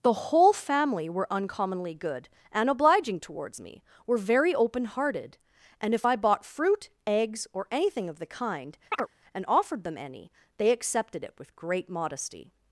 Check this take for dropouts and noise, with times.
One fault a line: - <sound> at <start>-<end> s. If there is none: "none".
- chirp at 8.9-9.1 s